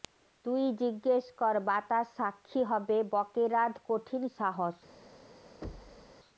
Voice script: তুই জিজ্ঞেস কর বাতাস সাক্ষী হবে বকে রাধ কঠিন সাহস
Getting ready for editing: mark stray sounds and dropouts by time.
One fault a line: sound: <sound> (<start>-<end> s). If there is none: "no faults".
sound: thud (5.6-6.1 s)